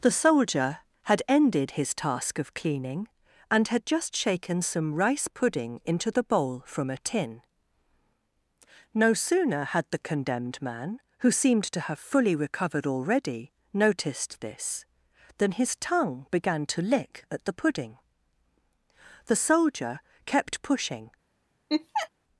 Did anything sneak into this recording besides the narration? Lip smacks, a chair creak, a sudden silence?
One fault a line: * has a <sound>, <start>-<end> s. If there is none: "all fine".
* has a laugh, 21.7-22.1 s